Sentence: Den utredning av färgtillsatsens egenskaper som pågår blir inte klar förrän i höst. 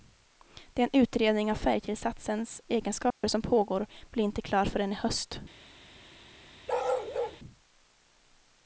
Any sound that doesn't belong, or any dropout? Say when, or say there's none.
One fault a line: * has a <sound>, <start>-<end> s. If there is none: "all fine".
* has a dropout, 3.1-3.2 s
* has a bark, 6.7-7.4 s